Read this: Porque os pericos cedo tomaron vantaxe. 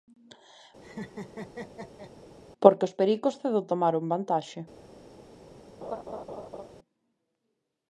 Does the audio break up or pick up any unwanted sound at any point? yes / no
yes